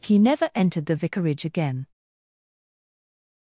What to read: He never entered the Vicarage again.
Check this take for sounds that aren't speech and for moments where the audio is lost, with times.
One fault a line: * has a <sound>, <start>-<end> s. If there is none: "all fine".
all fine